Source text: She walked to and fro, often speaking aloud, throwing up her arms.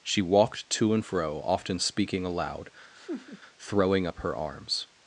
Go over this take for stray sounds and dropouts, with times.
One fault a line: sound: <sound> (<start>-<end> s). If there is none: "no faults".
sound: laugh (2.9-3.4 s)